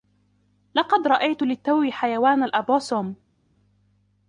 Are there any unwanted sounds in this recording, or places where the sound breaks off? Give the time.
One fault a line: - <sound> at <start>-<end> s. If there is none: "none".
none